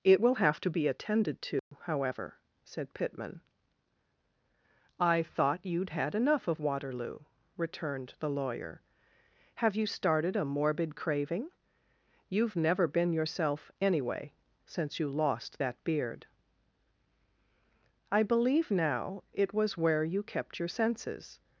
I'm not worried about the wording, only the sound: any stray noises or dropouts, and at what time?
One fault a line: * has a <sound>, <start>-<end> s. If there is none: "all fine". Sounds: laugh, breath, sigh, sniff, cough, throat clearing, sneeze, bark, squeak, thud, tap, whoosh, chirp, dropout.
* has a dropout, 1.6-1.7 s